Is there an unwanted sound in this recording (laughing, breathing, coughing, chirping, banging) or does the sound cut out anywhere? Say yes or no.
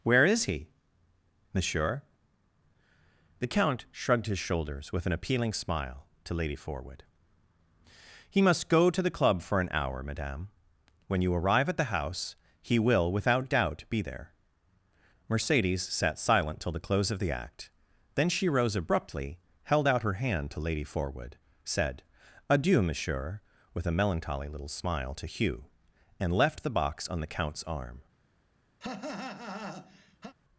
yes